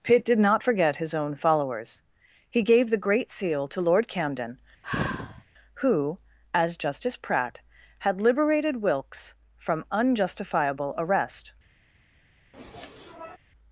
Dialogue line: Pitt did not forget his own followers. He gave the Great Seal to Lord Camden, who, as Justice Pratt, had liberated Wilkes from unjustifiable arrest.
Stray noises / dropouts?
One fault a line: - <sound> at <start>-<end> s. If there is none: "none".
- sigh at 4.8-5.4 s
- sniff at 12.5-13.4 s